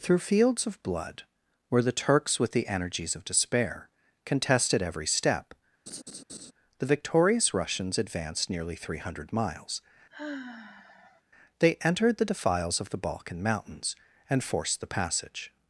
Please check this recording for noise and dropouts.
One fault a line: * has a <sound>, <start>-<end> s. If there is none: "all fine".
* has a laugh, 5.9-6.5 s
* has a sigh, 10.1-11.2 s